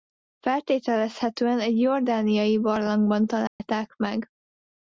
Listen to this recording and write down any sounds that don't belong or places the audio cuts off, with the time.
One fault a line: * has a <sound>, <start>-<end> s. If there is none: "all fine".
* has a dropout, 3.5-3.6 s